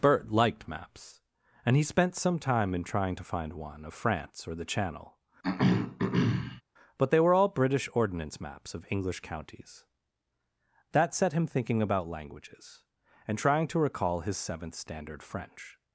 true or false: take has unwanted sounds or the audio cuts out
true